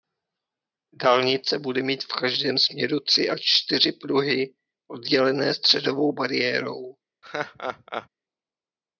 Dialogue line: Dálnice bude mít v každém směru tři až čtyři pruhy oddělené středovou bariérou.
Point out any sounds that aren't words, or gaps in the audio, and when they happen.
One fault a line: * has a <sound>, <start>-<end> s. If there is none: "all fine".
* has a laugh, 7.2-8.1 s